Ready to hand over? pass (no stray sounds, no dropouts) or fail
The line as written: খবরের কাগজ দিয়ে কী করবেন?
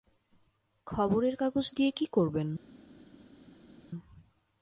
pass